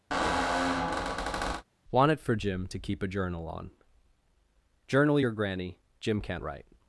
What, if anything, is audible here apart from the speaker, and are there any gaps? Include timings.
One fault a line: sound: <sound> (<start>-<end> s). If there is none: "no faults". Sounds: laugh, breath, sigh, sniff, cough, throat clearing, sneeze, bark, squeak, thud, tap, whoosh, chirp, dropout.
sound: squeak (0.1-1.6 s)